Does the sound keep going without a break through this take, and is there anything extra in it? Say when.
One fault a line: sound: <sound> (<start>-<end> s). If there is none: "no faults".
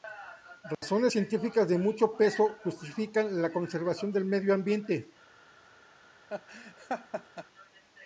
sound: dropout (0.7-0.8 s)
sound: laugh (6.3-7.5 s)